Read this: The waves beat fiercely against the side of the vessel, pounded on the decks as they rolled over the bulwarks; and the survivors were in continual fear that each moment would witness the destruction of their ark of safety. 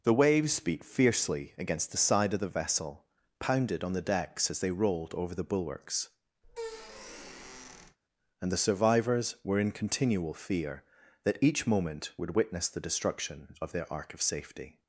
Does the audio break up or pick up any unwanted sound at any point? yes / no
yes